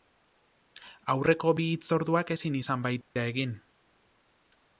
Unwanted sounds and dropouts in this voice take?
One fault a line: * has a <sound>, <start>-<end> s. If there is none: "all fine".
* has a dropout, 3.0-3.2 s